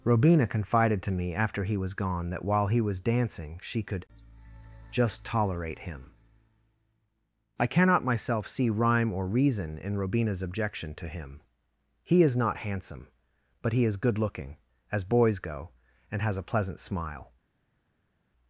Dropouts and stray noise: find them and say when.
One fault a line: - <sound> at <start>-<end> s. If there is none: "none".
none